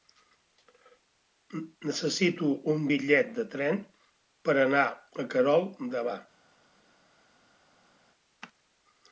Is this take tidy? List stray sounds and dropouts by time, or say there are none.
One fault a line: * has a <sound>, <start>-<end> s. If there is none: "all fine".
all fine